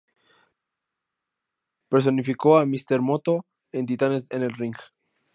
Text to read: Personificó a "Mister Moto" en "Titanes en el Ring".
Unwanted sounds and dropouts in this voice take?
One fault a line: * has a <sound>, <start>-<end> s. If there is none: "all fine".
all fine